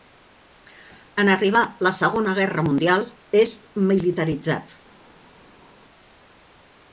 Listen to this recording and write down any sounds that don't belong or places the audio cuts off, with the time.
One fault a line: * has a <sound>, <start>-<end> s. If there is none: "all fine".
all fine